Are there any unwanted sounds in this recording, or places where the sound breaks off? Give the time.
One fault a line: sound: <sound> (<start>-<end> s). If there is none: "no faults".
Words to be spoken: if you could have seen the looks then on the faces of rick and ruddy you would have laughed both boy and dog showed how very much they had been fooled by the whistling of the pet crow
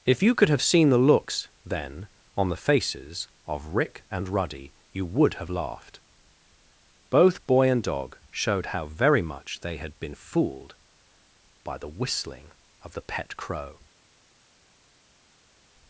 no faults